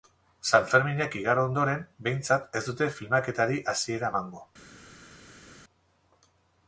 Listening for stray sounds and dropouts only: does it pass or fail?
pass